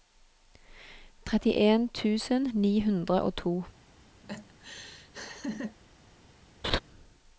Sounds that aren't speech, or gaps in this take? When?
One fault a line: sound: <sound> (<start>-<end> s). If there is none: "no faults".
sound: laugh (4.2-5.8 s)
sound: laugh (6.6-6.8 s)